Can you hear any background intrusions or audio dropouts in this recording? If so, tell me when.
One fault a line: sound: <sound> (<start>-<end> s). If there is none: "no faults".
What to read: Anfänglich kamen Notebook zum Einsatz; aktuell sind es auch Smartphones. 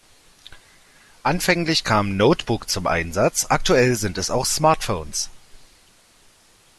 no faults